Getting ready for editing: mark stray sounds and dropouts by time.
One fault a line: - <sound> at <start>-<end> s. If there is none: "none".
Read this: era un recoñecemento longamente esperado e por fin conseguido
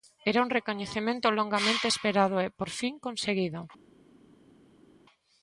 none